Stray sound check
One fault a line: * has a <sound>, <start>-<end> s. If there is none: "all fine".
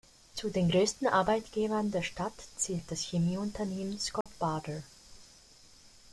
* has a dropout, 4.2-4.3 s